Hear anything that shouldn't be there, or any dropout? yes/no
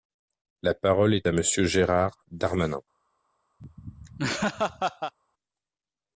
yes